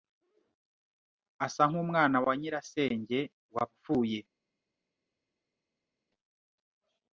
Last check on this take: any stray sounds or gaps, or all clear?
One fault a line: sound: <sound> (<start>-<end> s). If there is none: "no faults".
no faults